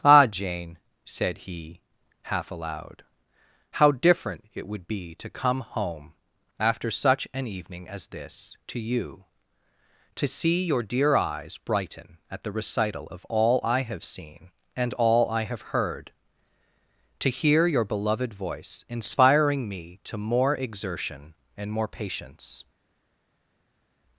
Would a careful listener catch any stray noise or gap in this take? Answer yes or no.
no